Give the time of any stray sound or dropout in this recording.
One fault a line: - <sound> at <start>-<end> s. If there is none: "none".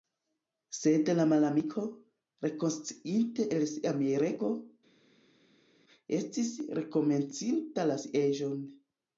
none